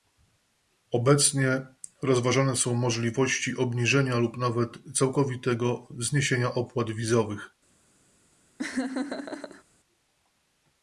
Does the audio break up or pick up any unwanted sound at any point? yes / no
yes